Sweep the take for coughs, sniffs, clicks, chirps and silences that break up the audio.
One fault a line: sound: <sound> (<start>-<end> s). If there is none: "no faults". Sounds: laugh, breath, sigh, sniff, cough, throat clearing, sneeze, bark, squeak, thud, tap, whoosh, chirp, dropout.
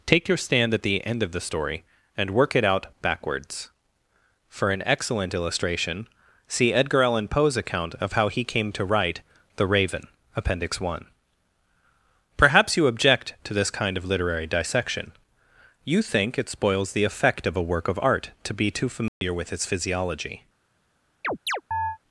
sound: dropout (19.1-19.2 s)
sound: chirp (21.2-22.0 s)